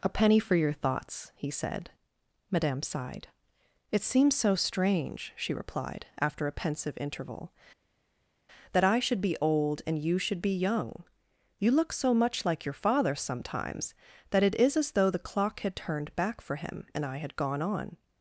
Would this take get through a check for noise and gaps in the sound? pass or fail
pass